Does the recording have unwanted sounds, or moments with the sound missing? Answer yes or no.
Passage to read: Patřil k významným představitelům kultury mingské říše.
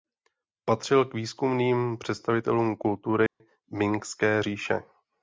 yes